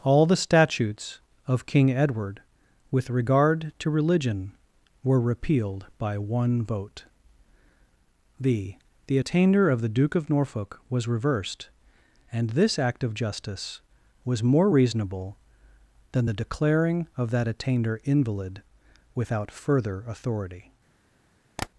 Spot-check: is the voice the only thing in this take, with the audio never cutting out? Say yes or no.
no